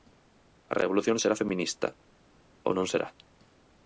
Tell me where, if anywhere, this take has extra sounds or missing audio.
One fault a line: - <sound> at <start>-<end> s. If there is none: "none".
none